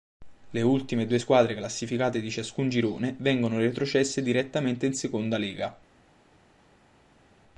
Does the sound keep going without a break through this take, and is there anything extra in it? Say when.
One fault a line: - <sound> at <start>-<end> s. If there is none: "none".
none